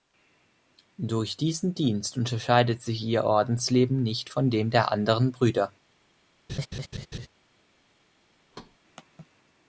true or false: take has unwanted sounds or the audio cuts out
true